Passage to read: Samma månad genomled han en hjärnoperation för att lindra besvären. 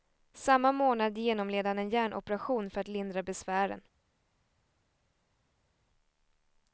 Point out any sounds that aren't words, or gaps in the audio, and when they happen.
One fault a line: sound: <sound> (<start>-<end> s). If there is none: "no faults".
no faults